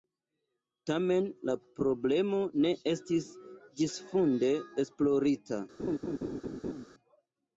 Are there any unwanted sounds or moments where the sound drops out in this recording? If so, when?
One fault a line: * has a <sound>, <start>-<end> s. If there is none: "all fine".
* has a laugh, 5.8-6.9 s